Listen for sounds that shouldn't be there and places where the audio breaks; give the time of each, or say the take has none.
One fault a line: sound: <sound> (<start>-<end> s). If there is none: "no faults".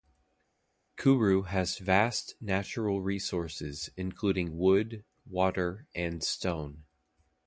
no faults